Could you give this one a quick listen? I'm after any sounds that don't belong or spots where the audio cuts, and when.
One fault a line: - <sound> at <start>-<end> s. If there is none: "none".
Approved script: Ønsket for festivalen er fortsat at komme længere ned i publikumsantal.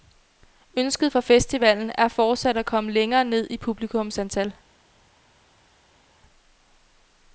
none